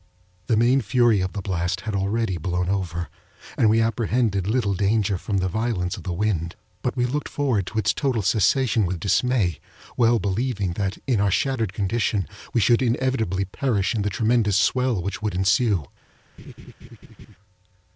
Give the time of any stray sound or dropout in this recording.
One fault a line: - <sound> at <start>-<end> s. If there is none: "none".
- laugh at 16.4-17.4 s